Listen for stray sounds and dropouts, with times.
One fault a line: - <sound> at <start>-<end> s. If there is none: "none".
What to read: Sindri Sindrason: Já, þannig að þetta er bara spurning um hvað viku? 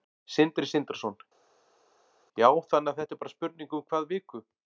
none